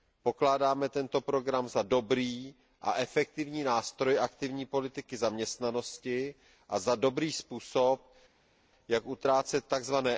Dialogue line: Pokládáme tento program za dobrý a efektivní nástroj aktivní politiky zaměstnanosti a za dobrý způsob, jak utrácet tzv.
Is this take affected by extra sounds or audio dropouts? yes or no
no